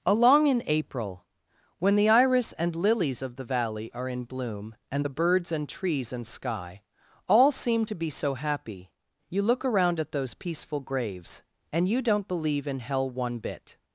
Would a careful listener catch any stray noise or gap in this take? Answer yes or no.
no